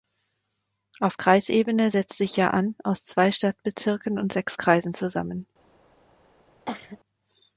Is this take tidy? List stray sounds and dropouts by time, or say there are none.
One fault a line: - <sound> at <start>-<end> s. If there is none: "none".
- cough at 6.7-7.0 s